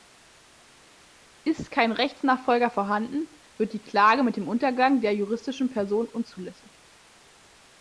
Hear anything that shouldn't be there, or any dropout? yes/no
no